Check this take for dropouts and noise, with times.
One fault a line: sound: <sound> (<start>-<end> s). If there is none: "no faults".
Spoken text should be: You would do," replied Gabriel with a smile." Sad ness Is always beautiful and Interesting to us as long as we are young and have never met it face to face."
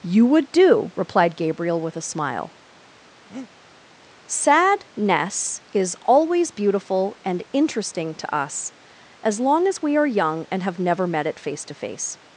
sound: breath (3.3-3.5 s)